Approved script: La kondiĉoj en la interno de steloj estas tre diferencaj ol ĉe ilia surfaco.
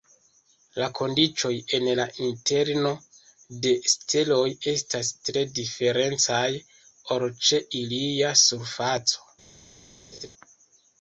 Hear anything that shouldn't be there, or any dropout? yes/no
yes